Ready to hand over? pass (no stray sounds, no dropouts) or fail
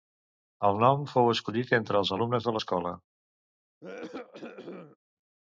fail